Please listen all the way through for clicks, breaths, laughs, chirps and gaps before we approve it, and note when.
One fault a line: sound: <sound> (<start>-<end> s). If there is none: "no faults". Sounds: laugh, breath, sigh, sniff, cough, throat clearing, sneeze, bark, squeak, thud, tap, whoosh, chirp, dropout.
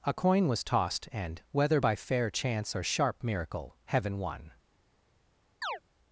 sound: chirp (5.6-5.8 s)